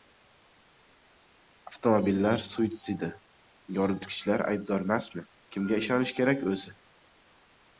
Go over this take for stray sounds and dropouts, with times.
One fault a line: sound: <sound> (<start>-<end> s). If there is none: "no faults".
no faults